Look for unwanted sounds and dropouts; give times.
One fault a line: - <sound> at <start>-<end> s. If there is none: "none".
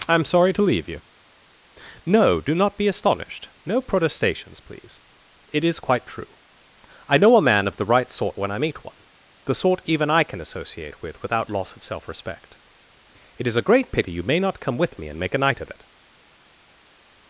none